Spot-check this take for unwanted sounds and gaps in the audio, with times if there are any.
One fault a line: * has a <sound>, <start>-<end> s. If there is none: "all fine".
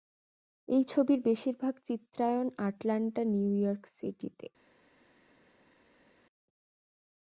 all fine